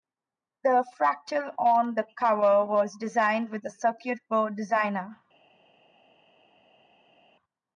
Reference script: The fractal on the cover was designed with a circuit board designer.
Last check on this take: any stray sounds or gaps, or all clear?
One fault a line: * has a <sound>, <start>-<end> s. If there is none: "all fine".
all fine